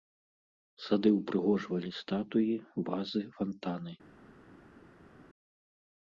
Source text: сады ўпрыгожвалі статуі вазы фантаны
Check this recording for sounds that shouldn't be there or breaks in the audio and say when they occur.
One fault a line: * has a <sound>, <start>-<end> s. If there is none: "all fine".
all fine